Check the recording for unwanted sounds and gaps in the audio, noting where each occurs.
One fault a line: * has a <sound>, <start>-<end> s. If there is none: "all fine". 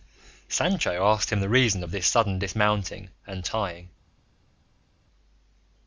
all fine